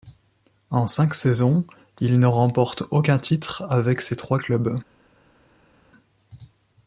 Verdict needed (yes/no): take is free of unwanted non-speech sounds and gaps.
yes